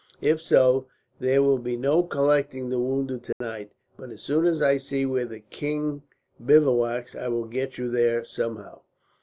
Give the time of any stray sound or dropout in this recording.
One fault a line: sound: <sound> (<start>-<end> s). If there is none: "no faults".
sound: dropout (3.3-3.4 s)